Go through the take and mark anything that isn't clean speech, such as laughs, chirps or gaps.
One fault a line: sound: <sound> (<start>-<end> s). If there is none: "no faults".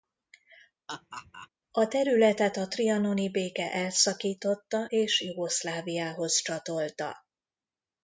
sound: laugh (0.9-1.5 s)